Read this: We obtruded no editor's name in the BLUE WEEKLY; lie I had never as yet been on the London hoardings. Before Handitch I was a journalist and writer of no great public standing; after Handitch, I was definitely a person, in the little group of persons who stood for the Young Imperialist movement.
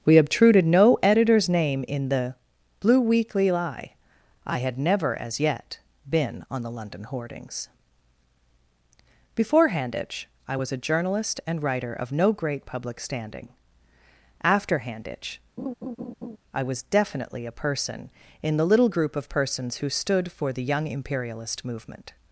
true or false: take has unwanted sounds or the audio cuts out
true